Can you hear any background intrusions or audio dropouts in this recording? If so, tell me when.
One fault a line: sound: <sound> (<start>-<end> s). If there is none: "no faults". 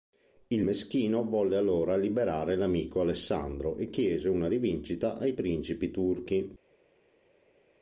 no faults